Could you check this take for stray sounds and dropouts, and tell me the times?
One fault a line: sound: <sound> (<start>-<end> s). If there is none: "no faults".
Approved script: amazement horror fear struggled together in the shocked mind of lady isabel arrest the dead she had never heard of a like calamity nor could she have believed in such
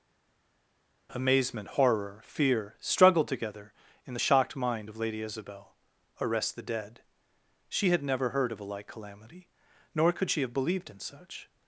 no faults